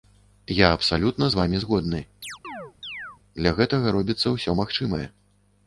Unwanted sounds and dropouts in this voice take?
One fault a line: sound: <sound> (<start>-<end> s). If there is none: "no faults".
sound: chirp (2.2-3.2 s)